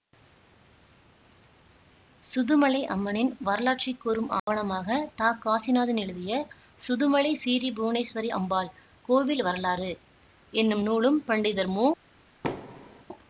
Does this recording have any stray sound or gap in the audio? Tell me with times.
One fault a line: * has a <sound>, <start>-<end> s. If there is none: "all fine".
* has a dropout, 4.4-4.5 s
* has a thud, 12.4-13.0 s